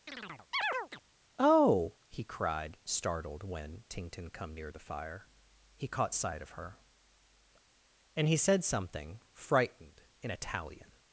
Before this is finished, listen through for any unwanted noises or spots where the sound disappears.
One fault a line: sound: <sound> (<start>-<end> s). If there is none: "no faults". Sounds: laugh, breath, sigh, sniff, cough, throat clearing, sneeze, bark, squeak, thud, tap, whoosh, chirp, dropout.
sound: chirp (0.1-1.0 s)